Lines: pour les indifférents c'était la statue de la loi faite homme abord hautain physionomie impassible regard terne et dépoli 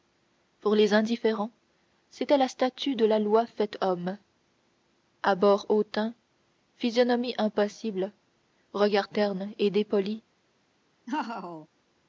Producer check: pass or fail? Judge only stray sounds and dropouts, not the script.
fail